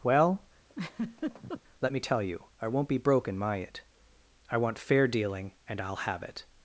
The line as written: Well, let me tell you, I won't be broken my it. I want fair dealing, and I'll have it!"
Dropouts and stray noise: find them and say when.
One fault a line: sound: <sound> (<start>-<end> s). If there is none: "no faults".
sound: laugh (0.7-1.6 s)